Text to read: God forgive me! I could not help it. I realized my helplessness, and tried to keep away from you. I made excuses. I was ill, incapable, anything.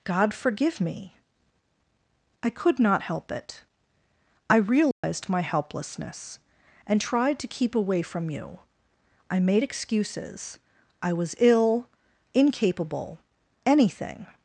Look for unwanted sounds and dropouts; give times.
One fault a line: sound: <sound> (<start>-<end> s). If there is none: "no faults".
sound: dropout (4.9-5.0 s)